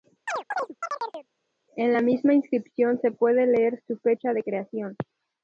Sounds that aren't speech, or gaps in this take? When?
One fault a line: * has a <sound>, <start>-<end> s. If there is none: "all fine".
* has a chirp, 0.3-1.3 s